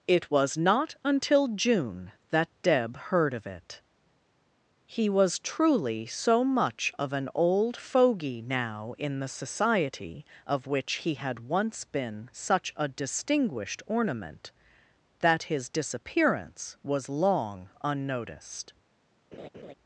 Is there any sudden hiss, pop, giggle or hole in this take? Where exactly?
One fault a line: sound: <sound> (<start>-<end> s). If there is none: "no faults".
sound: laugh (19.3-19.7 s)